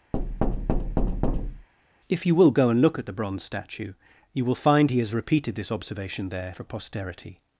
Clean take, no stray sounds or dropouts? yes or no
no